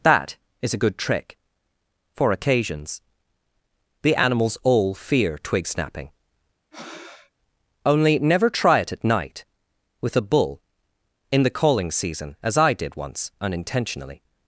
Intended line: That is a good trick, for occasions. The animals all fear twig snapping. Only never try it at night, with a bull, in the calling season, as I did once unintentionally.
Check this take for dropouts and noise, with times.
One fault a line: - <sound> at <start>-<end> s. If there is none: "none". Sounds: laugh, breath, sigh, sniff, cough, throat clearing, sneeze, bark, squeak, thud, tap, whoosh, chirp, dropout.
- breath at 6.7-7.3 s